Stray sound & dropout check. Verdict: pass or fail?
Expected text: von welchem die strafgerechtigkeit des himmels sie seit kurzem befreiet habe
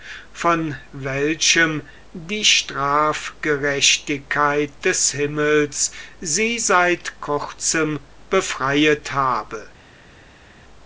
pass